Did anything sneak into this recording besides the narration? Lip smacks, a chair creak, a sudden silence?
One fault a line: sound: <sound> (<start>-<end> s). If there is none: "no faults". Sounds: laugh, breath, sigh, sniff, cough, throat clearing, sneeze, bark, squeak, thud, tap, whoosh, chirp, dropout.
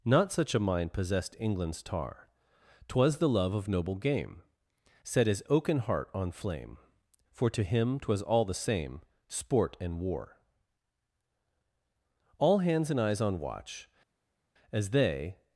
no faults